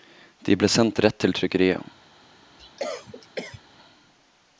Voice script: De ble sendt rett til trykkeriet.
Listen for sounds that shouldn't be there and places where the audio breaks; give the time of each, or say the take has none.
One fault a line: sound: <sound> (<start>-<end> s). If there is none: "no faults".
sound: cough (2.6-3.6 s)